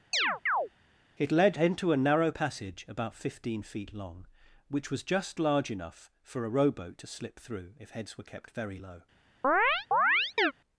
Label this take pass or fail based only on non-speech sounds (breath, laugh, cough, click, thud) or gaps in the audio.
fail